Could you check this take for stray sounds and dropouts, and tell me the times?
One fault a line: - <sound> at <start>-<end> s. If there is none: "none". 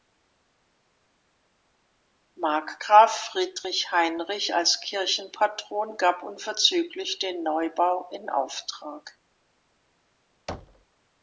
- thud at 10.5-10.9 s